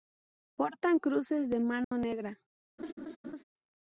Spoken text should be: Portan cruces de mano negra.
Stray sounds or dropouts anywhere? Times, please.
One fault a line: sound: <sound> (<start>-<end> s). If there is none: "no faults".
sound: dropout (1.8-1.9 s)
sound: laugh (2.8-3.4 s)